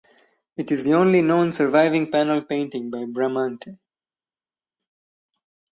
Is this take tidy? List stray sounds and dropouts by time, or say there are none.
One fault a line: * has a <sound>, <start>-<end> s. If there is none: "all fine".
all fine